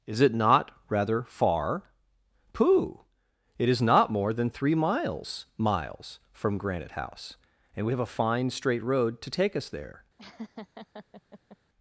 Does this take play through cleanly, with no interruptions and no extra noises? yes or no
no